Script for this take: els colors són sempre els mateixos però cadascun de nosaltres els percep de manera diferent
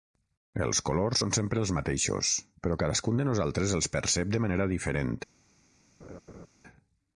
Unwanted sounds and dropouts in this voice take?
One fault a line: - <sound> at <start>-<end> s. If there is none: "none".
- laugh at 6.0-6.5 s